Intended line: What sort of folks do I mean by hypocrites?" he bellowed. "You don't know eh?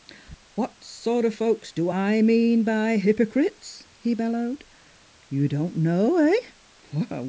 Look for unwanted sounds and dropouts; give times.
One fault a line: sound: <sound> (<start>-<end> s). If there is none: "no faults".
no faults